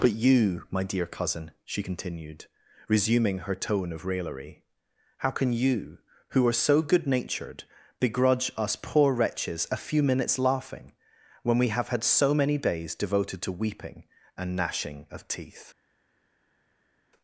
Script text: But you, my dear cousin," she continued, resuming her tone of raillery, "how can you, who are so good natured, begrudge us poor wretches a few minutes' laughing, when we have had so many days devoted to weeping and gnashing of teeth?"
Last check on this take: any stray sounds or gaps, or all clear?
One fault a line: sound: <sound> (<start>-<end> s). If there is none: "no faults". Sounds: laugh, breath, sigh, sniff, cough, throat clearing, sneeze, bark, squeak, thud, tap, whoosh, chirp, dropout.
no faults